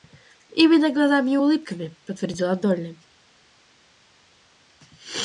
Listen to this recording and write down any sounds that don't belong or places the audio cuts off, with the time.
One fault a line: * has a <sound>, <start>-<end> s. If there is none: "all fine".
all fine